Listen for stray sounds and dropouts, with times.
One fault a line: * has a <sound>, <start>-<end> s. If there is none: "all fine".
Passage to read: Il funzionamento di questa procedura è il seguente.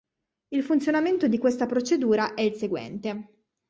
all fine